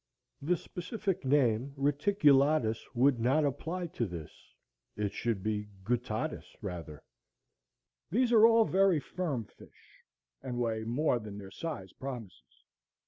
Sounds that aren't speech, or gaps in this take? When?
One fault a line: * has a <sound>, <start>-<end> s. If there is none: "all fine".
all fine